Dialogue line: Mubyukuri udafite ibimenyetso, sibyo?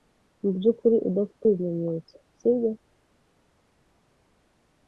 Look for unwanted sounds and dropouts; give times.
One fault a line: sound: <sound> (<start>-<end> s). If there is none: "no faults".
no faults